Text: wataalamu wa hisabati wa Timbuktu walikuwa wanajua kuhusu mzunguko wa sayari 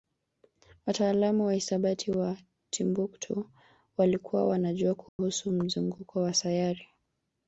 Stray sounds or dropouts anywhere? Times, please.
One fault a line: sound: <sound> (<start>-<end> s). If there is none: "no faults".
sound: dropout (5.1-5.2 s)